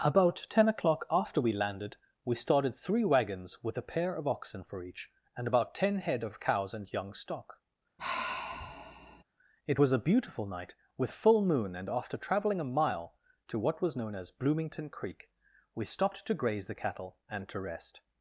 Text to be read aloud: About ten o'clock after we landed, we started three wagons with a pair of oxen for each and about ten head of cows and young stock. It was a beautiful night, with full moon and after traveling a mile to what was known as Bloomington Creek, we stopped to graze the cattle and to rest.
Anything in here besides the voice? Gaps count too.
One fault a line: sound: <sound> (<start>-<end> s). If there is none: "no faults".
sound: sigh (8.0-9.2 s)